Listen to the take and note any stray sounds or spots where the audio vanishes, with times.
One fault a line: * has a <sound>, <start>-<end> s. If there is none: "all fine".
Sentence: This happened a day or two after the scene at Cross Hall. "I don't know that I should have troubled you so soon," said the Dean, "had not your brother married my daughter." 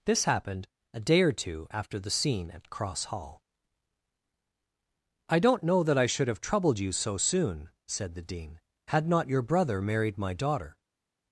all fine